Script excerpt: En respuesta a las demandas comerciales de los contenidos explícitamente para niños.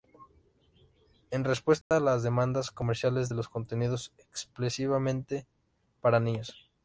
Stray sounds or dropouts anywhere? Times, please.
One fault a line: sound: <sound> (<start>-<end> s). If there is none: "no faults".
sound: dropout (1.8-1.9 s)